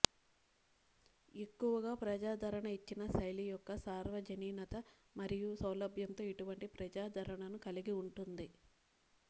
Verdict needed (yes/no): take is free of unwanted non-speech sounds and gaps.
yes